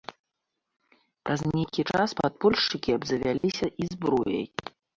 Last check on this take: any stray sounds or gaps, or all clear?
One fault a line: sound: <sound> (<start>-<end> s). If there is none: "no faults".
sound: dropout (3.4-3.4 s)